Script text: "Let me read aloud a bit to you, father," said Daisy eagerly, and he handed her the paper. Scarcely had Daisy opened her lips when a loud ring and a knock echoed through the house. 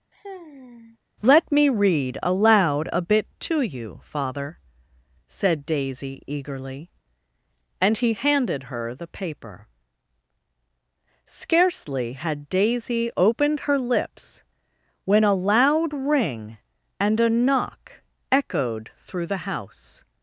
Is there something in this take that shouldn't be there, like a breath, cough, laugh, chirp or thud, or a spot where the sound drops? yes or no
yes